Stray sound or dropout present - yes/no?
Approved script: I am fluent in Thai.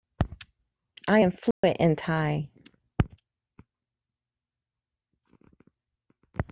yes